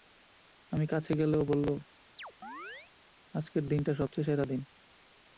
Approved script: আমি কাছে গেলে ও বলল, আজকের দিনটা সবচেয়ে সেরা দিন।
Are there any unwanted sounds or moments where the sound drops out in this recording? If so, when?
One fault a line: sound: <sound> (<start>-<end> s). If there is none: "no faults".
sound: chirp (2.2-2.9 s)